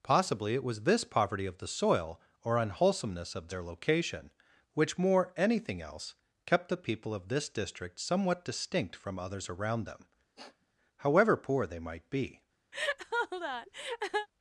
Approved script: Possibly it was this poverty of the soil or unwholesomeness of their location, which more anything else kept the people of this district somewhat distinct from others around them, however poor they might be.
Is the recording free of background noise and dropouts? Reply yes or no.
no